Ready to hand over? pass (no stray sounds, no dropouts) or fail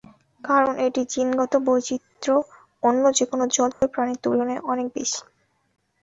fail